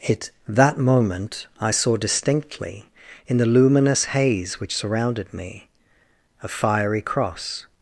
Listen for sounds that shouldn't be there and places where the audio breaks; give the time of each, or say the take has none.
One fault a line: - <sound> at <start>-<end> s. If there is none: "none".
none